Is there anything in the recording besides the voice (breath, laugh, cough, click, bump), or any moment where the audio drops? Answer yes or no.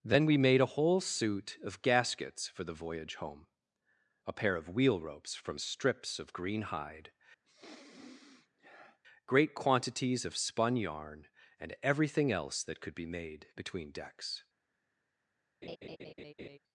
yes